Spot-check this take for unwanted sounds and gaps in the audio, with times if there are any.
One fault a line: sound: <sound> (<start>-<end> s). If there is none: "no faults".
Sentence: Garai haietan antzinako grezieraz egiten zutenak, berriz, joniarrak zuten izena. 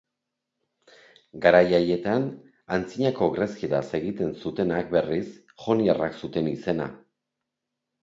no faults